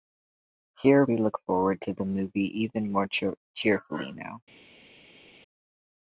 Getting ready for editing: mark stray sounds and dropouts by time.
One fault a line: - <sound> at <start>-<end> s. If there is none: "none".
none